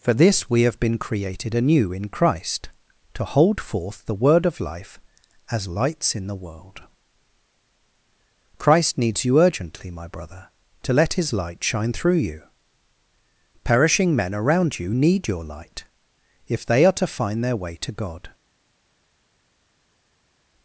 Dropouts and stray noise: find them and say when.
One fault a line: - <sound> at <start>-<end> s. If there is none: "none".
none